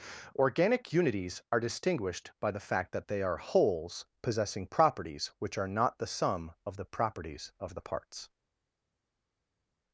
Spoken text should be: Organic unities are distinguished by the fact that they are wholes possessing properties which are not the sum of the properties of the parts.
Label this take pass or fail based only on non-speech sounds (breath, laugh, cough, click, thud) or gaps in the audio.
pass